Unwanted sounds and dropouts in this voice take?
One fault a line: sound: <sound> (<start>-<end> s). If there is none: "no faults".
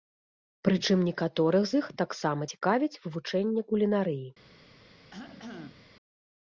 sound: cough (5.1-5.9 s)